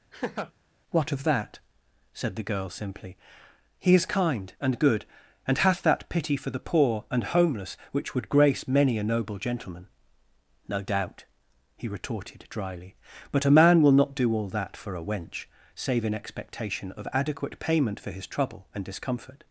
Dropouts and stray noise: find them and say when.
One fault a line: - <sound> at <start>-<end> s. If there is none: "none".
- laugh at 0.1-0.5 s